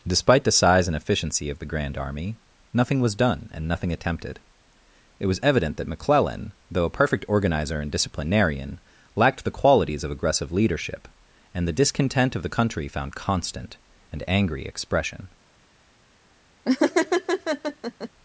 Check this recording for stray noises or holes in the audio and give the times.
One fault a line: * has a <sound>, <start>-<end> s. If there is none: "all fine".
* has a laugh, 16.7-18.1 s